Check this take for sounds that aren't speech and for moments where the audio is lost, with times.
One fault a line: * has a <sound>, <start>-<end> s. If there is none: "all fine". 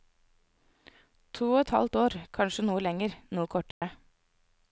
* has a dropout, 3.7-3.8 s